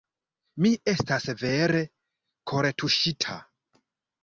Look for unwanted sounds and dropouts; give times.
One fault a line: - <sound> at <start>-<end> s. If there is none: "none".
none